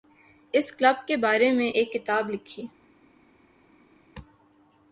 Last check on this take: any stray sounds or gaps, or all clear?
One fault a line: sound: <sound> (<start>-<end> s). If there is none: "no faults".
no faults